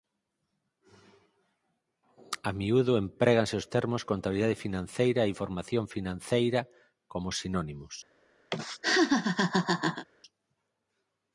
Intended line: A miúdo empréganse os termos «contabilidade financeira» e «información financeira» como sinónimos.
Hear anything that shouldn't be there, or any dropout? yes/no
yes